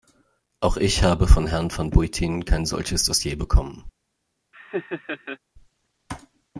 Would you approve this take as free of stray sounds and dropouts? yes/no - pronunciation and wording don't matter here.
no